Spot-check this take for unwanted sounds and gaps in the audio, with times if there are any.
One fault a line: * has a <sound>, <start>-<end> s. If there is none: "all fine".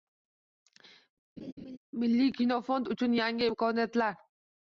* has a laugh, 1.4-1.8 s